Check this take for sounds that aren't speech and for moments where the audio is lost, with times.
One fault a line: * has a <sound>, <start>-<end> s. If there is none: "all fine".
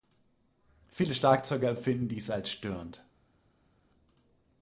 all fine